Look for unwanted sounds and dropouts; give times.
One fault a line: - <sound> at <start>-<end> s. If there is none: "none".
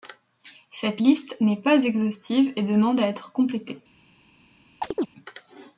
- chirp at 4.8-5.1 s